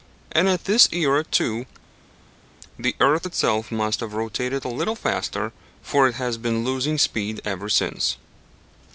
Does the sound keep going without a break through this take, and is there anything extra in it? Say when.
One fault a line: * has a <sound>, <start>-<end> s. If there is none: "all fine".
all fine